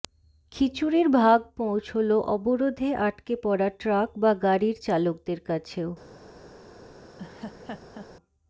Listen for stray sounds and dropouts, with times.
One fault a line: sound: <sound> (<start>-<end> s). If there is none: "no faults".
sound: laugh (7.2-8.1 s)